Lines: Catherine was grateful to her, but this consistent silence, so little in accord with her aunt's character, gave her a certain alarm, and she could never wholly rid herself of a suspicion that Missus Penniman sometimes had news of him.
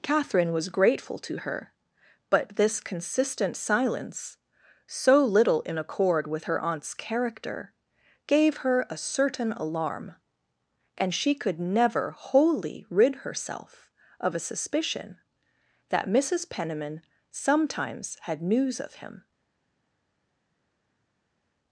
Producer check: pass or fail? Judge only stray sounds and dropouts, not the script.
pass